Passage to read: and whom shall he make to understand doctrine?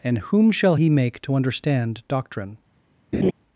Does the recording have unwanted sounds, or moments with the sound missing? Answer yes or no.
yes